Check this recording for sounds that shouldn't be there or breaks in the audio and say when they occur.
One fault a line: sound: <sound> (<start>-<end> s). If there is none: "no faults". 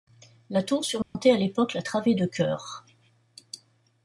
sound: dropout (1.0-1.2 s)